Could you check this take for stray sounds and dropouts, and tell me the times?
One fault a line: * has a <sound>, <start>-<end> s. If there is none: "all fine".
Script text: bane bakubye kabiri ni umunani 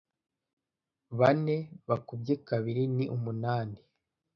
all fine